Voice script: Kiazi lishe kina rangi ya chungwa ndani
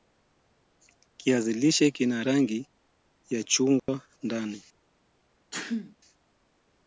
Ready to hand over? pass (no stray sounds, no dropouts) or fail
fail